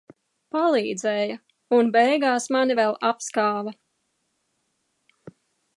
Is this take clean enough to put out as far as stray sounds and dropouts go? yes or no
yes